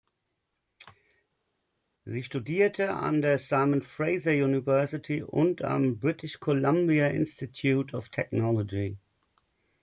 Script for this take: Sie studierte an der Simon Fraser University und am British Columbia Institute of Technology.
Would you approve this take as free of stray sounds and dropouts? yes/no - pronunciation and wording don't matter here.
yes